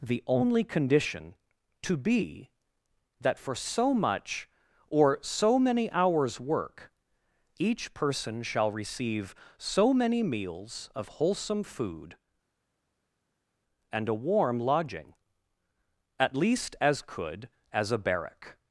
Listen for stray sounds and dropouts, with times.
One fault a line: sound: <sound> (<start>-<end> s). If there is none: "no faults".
no faults